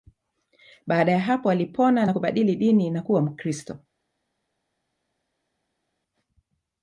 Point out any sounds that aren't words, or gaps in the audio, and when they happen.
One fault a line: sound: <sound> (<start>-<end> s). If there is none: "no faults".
no faults